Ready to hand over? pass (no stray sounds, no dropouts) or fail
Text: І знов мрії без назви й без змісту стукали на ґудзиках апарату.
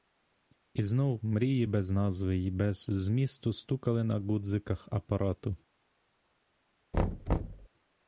fail